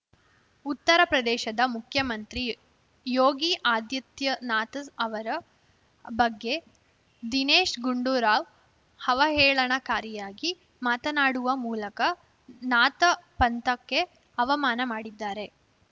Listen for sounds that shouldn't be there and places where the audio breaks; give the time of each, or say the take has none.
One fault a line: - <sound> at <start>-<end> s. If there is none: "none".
none